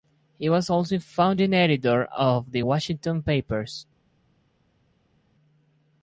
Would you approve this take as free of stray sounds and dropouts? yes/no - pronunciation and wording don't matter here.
yes